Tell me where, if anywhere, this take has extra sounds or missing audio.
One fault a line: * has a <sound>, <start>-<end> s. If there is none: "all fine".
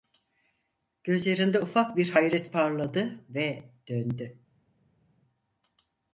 all fine